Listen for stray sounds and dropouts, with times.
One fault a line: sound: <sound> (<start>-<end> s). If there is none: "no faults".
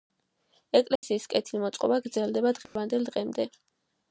sound: dropout (1.0-1.0 s)
sound: dropout (2.7-2.8 s)